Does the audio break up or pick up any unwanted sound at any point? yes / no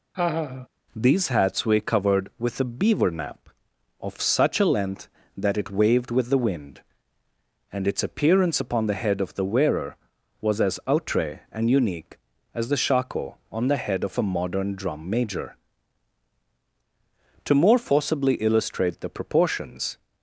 yes